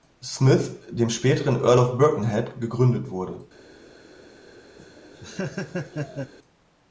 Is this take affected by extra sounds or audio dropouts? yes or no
yes